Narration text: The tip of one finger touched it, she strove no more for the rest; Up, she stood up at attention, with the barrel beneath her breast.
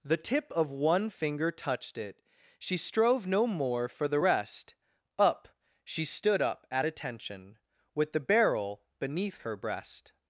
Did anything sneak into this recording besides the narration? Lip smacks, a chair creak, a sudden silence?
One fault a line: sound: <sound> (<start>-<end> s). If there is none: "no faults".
no faults